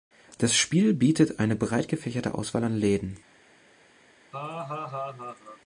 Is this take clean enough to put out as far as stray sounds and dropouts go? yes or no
no